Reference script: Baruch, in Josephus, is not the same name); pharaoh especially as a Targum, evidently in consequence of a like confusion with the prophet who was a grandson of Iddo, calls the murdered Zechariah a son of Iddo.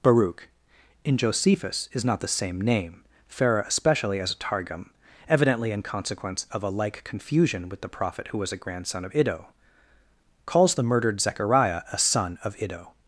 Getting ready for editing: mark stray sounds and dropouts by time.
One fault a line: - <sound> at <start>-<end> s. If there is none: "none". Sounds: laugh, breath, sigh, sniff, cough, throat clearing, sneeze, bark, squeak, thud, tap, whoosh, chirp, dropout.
none